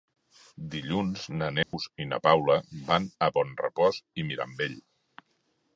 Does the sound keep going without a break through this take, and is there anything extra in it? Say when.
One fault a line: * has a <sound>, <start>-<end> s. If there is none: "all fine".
* has a dropout, 1.6-1.7 s